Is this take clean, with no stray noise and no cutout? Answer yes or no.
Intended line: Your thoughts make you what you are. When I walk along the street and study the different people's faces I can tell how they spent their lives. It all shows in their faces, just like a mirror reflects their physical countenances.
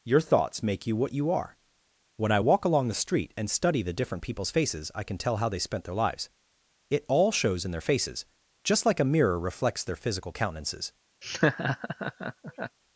no